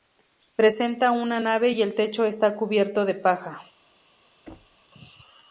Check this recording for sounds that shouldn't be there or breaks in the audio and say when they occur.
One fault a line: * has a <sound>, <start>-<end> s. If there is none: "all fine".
* has a thud, 4.5-4.8 s